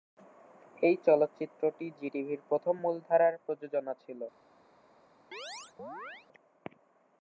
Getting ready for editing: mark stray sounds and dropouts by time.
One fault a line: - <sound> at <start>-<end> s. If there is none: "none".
- chirp at 5.3-6.3 s